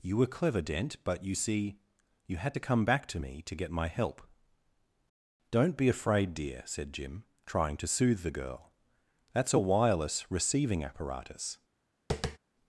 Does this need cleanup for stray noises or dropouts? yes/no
yes